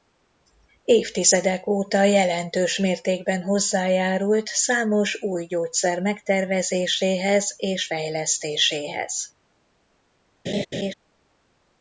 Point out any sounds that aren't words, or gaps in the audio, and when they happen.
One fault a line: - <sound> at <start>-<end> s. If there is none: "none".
- laugh at 10.5-10.9 s